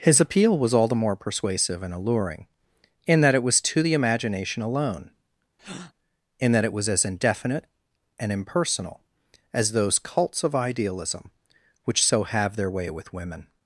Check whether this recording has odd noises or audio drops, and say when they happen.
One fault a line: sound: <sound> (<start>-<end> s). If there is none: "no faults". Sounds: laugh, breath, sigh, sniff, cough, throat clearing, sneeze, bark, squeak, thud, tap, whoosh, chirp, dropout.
sound: breath (5.6-5.9 s)